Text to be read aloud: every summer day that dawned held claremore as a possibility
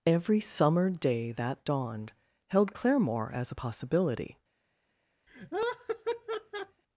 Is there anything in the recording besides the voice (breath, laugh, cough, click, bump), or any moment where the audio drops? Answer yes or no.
yes